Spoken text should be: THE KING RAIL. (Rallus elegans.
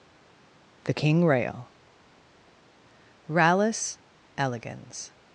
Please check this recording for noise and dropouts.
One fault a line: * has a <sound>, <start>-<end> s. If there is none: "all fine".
all fine